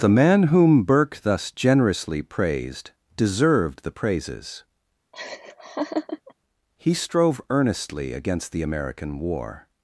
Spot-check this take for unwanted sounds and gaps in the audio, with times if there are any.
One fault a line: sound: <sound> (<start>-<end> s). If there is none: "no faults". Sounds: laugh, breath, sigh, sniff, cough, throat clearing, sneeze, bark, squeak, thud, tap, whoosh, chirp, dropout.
sound: laugh (5.1-6.3 s)